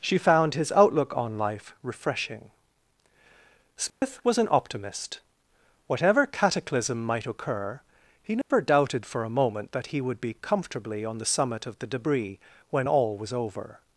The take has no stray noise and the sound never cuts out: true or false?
false